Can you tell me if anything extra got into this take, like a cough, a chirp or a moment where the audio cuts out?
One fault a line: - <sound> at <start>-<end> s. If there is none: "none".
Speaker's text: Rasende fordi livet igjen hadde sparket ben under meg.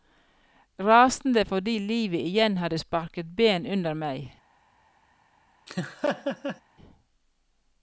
- laugh at 5.7-6.6 s